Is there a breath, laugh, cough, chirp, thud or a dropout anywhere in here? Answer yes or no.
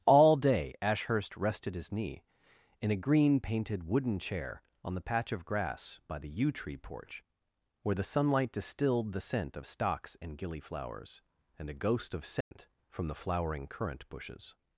yes